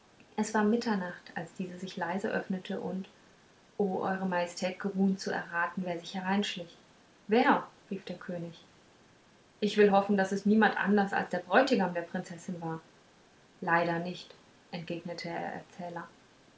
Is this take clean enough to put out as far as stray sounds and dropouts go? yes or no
yes